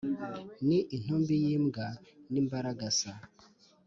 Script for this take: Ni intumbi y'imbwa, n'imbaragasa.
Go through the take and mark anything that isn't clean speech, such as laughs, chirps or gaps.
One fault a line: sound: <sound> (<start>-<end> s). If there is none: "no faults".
no faults